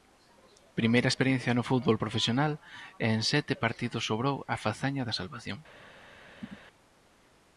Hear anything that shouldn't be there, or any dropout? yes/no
yes